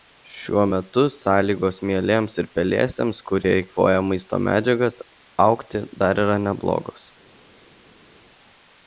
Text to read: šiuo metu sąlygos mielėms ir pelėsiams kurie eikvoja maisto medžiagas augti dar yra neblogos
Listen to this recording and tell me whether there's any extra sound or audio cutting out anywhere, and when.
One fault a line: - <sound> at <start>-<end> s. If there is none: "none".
none